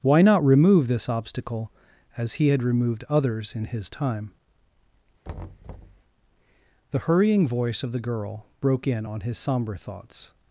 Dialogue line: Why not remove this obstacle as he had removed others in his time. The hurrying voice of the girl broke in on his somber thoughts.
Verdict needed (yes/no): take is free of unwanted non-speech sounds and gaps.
no